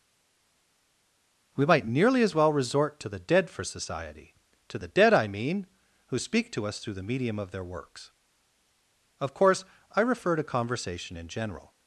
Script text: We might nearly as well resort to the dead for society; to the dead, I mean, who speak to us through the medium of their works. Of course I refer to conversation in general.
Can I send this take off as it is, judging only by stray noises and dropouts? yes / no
yes